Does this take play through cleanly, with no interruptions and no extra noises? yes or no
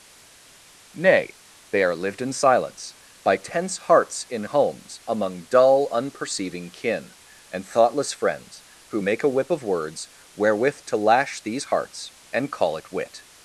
yes